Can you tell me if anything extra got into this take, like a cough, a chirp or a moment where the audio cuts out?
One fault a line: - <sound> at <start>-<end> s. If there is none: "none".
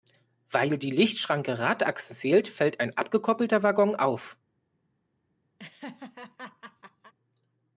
- laugh at 5.6-7.1 s